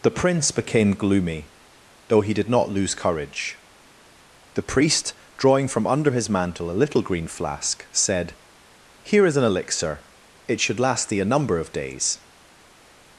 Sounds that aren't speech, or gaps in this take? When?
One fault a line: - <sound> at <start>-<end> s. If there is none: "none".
none